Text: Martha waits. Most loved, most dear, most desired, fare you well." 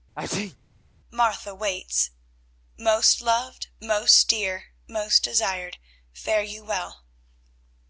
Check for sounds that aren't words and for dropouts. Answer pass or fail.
fail